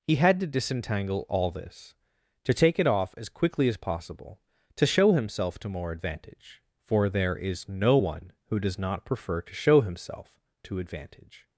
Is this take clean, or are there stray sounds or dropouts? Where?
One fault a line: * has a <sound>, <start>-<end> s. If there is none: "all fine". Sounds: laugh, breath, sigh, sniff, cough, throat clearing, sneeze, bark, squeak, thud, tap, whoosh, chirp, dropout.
all fine